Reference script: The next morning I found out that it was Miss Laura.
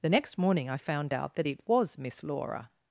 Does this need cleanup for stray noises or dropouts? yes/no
no